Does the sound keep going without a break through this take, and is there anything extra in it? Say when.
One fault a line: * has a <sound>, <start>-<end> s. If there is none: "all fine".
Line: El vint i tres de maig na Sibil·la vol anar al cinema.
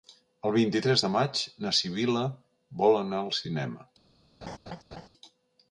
* has a laugh, 4.4-5.1 s